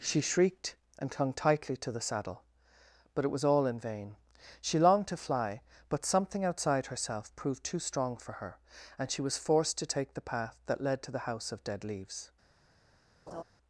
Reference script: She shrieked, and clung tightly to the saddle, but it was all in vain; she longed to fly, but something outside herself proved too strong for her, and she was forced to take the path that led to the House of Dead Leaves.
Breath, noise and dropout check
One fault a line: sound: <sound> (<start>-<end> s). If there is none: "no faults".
sound: laugh (13.3-13.4 s)